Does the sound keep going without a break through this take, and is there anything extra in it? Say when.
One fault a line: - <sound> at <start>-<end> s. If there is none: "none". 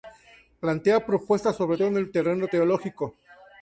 none